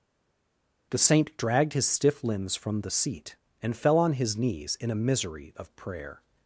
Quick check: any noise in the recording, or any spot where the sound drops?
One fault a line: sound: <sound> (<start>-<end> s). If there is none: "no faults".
no faults